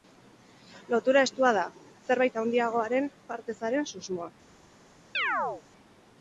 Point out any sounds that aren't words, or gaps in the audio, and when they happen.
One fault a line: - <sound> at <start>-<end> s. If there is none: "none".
- chirp at 5.1-5.6 s